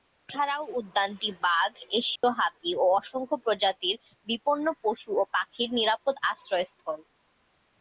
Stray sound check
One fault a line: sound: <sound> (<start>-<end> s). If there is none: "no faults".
sound: dropout (2.2-2.2 s)